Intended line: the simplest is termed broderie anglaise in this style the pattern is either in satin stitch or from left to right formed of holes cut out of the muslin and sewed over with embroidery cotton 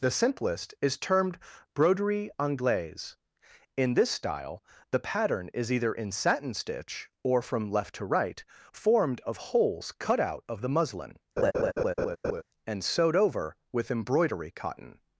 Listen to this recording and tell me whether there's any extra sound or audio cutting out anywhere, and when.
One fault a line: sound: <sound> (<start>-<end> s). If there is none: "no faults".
sound: laugh (11.4-12.4 s)